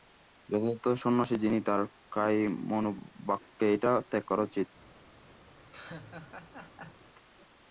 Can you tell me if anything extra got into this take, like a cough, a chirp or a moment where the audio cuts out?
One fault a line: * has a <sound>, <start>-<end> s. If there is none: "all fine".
* has a laugh, 5.7-7.1 s